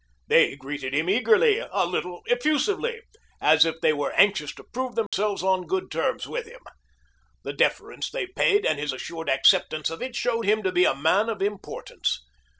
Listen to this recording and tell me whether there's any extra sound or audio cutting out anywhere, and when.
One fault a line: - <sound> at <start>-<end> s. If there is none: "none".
- dropout at 5.1-5.1 s